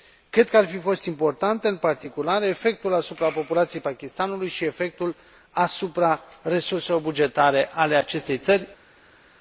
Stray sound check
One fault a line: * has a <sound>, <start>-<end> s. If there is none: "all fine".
all fine